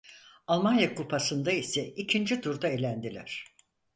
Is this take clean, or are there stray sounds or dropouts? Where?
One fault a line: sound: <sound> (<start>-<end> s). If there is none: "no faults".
no faults